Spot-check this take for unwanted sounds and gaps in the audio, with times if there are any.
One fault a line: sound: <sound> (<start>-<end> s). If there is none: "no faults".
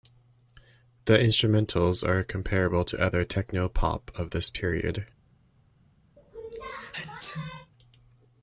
sound: sneeze (6.2-7.7 s)